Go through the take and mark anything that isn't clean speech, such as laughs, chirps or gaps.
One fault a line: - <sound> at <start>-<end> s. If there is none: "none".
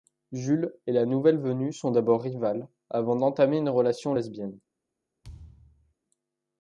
- thud at 5.2-5.9 s